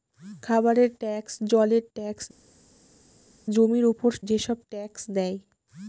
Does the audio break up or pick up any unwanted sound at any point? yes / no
no